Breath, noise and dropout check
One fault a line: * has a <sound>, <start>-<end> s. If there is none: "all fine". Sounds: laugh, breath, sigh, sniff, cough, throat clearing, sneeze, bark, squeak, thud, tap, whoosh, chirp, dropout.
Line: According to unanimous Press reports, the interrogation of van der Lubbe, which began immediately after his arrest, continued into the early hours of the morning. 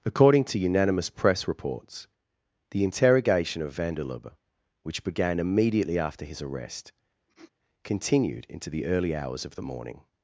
* has a sniff, 7.3-7.5 s